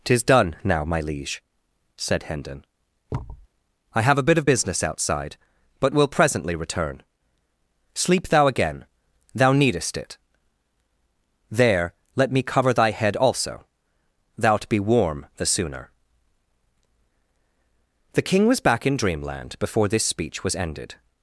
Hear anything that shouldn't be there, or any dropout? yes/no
yes